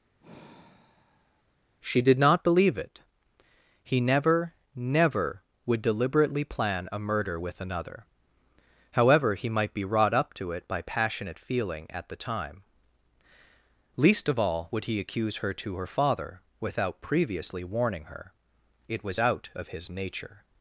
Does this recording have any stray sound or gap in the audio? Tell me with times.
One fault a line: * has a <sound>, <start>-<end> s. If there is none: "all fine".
* has a sigh, 0.2-1.4 s